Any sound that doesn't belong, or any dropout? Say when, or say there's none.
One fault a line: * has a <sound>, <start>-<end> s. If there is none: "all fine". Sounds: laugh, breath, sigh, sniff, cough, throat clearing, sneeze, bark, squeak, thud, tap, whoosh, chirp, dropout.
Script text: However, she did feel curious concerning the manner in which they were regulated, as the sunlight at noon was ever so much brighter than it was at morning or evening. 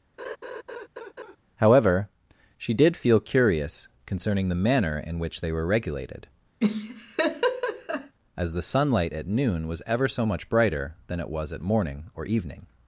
* has a laugh, 0.2-1.4 s
* has a laugh, 6.6-8.1 s